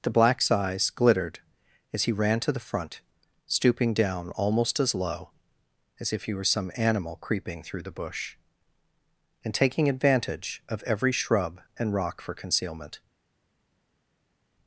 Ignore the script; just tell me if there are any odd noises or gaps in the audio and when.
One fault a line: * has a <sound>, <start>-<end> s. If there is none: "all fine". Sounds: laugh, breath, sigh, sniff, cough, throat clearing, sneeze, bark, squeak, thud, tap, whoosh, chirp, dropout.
all fine